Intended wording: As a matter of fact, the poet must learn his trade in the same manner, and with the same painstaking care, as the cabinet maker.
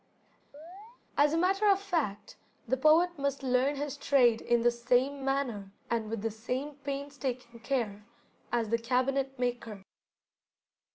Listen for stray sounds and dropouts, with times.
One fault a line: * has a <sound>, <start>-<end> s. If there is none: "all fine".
* has a chirp, 0.5-1.0 s